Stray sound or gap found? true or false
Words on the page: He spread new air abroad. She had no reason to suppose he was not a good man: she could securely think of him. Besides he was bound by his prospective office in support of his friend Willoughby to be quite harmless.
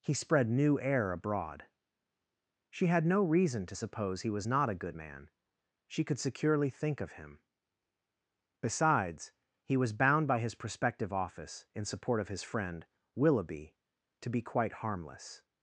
false